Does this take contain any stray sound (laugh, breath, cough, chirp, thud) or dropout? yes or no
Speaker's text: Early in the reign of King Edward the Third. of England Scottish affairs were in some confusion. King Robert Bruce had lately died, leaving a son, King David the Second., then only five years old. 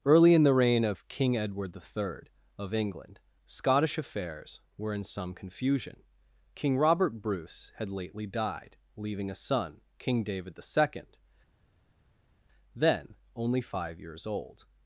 no